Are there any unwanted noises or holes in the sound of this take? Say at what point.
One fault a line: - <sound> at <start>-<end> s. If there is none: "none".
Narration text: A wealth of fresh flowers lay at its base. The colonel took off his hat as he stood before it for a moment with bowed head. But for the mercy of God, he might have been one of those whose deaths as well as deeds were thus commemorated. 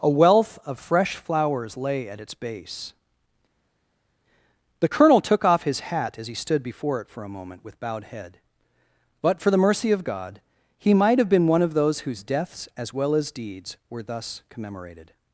none